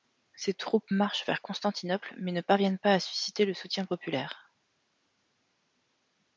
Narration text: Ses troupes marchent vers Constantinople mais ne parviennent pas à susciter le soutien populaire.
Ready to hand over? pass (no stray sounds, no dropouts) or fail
pass